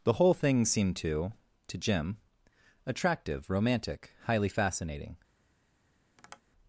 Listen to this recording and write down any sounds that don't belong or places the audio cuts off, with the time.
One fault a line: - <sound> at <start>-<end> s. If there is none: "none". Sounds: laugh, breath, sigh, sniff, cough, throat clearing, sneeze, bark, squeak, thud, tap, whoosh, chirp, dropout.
- tap at 6.2-6.4 s